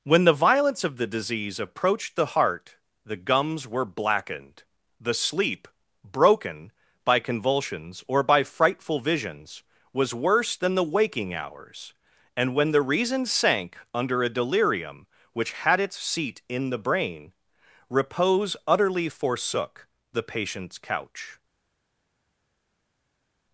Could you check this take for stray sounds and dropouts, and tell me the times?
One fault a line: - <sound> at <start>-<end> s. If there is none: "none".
none